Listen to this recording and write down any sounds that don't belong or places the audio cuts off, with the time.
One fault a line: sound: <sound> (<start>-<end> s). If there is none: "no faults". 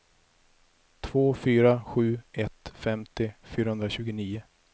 no faults